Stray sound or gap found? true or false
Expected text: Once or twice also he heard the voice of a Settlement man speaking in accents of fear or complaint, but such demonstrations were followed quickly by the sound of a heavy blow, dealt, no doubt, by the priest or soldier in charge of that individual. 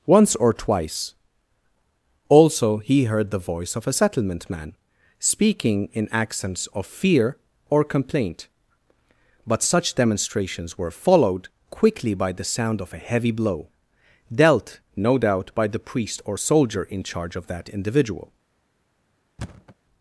true